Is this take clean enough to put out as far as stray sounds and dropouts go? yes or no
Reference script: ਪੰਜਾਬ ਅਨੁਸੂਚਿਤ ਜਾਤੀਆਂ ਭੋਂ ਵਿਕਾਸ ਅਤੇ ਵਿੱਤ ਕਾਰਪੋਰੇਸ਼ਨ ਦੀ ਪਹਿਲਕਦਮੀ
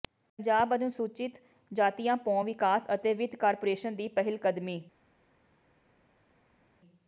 yes